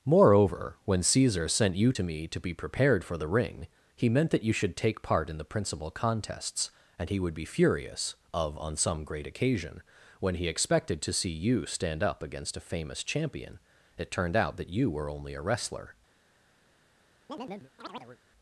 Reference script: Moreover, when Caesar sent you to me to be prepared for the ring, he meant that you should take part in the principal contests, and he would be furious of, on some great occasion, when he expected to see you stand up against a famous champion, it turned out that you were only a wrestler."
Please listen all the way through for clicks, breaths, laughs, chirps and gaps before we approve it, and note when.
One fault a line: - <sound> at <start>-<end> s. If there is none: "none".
- chirp at 17.3-18.2 s